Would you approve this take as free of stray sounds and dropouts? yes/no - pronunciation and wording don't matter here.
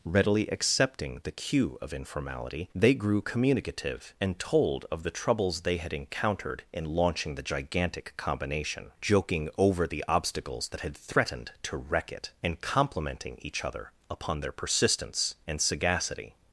yes